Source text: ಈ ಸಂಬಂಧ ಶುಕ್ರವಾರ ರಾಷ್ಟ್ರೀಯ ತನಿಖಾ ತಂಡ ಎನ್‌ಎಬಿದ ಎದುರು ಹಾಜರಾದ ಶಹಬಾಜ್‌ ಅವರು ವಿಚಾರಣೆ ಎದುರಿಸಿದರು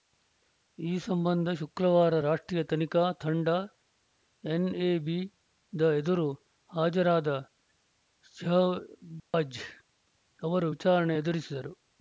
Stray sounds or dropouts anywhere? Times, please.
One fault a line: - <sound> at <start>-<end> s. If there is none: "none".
- dropout at 9.2-9.3 s